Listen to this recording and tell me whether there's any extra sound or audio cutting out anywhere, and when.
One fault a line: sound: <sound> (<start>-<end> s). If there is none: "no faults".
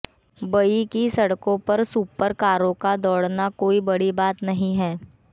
no faults